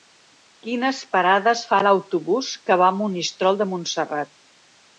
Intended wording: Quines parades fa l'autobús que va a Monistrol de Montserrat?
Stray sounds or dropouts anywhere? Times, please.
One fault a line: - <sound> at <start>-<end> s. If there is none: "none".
none